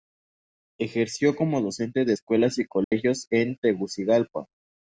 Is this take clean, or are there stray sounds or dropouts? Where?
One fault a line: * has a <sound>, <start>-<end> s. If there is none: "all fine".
* has a dropout, 2.8-2.9 s